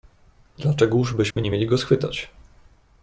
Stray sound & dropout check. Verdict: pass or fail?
fail